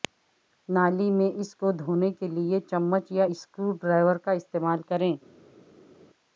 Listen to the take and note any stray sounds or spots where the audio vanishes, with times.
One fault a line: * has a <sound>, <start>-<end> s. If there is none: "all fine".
all fine